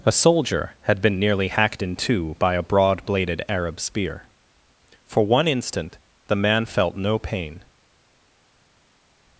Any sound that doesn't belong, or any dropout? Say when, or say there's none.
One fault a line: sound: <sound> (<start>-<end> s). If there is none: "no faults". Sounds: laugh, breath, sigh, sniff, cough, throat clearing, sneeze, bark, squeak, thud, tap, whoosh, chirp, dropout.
no faults